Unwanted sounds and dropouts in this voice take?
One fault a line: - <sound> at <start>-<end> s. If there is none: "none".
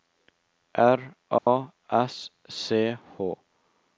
- dropout at 1.4-1.5 s